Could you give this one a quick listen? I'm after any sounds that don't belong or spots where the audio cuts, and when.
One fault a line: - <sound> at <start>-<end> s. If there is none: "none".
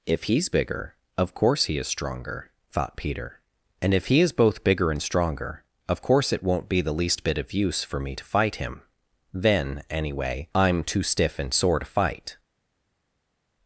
none